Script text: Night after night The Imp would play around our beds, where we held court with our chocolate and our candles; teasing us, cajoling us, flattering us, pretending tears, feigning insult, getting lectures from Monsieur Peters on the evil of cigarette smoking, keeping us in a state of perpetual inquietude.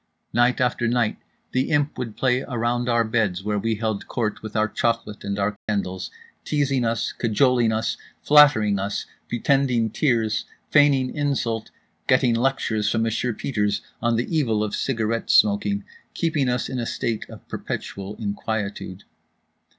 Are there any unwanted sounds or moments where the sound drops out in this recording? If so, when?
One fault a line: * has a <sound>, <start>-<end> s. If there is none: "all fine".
* has a dropout, 5.6-5.7 s